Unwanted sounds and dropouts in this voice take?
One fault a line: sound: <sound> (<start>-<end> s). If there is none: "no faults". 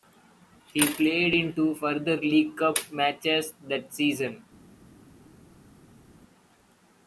no faults